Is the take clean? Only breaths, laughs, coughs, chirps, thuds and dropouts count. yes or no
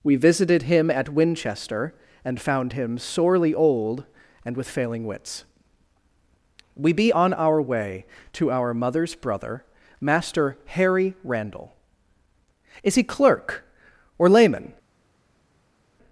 yes